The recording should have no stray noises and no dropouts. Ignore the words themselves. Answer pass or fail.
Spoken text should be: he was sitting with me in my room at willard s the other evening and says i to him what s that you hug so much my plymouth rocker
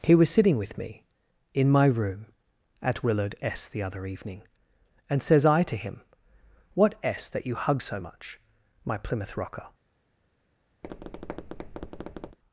fail